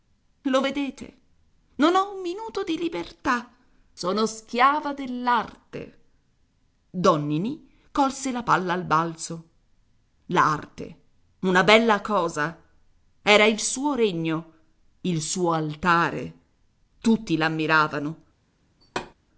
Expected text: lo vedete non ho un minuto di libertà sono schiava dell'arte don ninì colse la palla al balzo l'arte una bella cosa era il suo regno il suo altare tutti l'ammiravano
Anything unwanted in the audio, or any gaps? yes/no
yes